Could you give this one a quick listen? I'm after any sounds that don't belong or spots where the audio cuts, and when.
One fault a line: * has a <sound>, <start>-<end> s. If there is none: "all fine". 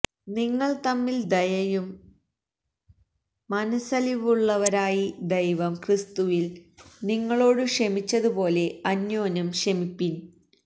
all fine